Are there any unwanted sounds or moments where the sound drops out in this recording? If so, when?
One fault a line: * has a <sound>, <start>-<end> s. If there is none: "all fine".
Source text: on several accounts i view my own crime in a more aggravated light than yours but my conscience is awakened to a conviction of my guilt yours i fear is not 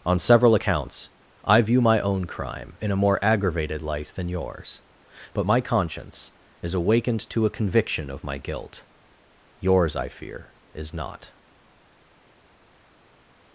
all fine